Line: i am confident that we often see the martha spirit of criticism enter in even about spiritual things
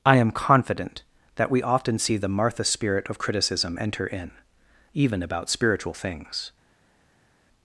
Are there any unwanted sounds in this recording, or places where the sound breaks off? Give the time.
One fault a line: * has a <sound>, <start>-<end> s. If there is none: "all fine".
all fine